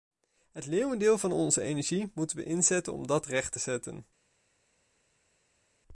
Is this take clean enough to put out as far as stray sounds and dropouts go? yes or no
yes